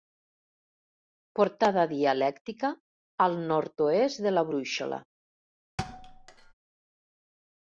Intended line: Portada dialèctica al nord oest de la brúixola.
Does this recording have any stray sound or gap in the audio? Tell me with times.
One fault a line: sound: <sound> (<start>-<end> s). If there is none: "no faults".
sound: thud (5.8-6.5 s)